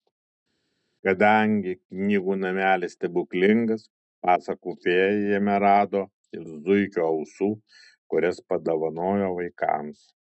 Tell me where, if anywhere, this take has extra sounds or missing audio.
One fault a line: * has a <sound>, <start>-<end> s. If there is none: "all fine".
all fine